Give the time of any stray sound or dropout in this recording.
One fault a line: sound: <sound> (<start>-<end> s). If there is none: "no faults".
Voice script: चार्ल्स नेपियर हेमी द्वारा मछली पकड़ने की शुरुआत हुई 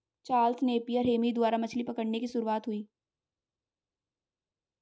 no faults